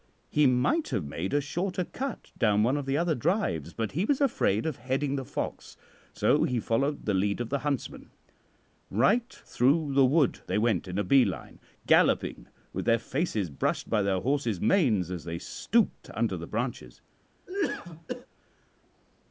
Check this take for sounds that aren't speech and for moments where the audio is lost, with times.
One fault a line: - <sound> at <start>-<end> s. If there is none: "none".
- cough at 17.5-18.3 s